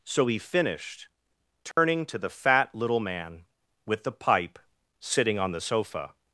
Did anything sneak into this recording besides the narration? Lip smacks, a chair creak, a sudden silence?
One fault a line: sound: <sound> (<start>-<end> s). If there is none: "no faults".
sound: dropout (1.7-1.8 s)